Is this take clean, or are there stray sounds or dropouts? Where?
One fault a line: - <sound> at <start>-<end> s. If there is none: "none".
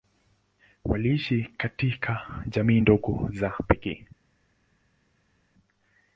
none